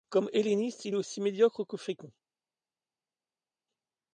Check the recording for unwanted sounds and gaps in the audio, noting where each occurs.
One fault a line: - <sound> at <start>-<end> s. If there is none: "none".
none